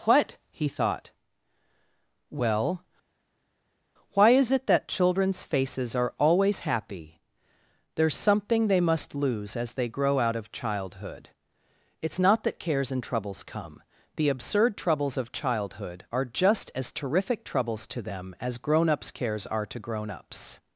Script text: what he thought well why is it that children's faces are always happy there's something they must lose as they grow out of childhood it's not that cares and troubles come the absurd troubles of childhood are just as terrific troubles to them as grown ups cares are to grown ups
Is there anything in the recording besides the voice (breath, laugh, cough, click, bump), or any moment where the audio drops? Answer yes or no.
no